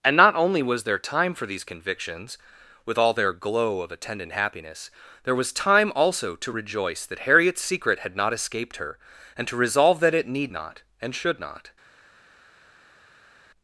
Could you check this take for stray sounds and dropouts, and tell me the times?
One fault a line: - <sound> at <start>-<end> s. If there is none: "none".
none